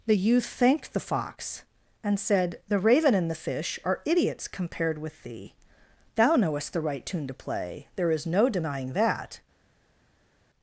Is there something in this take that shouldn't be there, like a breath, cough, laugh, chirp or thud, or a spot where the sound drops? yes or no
no